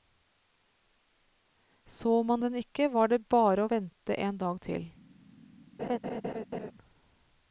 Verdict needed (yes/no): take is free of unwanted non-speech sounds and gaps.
no